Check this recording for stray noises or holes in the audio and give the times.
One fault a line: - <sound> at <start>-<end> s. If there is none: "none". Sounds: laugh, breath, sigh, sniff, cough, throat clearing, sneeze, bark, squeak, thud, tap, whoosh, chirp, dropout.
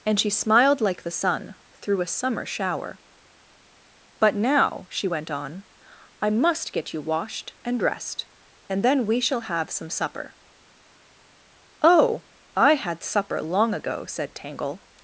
none